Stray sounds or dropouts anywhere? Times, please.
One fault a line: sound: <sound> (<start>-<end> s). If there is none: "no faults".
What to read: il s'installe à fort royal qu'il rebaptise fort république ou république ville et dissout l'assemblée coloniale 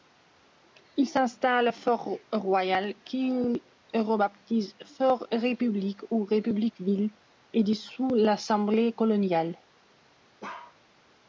sound: bark (10.4-10.8 s)